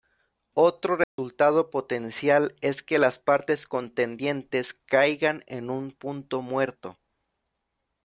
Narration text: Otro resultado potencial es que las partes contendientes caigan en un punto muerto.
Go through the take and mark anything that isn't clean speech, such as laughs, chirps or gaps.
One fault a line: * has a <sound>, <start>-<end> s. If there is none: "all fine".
* has a dropout, 1.0-1.2 s